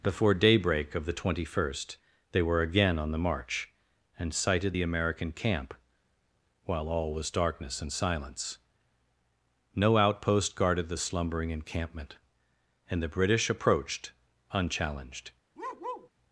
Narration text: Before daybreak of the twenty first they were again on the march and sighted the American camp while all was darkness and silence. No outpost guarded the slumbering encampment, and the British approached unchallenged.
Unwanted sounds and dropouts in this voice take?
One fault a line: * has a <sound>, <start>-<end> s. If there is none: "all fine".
* has a bark, 15.6-16.1 s